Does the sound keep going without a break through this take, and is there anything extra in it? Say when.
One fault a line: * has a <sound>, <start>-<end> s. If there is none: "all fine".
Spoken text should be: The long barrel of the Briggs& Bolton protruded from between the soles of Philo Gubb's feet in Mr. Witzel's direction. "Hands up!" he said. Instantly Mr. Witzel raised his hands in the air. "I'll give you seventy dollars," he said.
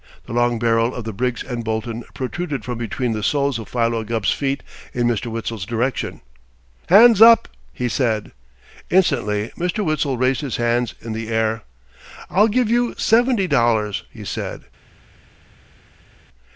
all fine